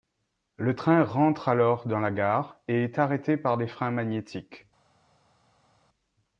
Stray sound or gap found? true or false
false